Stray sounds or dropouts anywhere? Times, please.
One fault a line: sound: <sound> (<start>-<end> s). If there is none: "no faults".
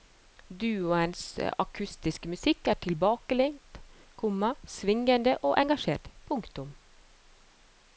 no faults